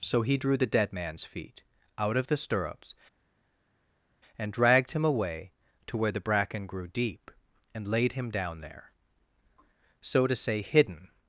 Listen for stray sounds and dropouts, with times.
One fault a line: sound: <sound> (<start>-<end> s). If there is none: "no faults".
no faults